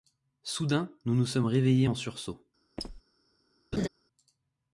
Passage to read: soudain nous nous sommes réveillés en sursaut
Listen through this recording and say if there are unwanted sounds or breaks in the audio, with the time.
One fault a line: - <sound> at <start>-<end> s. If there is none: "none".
- squeak at 2.8-3.0 s
- laugh at 3.7-3.9 s